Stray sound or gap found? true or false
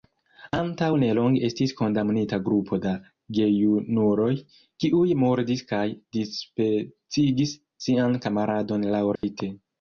true